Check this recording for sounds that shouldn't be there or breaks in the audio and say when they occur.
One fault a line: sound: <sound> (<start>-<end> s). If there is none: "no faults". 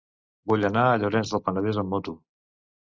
no faults